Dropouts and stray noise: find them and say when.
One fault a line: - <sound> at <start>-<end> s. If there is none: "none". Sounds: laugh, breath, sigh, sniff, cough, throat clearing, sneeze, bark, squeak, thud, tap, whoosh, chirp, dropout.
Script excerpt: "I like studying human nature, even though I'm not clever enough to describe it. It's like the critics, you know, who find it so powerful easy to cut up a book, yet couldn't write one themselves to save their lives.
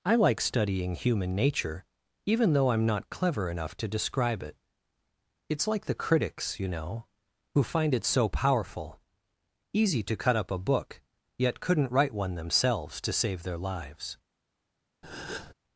- breath at 15.0-15.5 s